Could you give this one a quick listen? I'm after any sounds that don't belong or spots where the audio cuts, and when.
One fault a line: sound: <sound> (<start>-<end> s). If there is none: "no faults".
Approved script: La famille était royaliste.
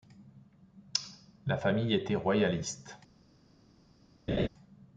sound: laugh (4.3-4.5 s)